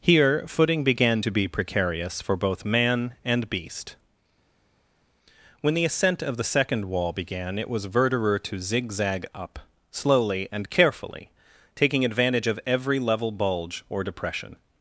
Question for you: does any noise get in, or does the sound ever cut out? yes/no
no